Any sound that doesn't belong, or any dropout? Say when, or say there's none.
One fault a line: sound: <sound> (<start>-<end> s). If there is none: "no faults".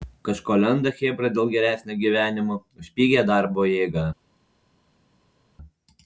no faults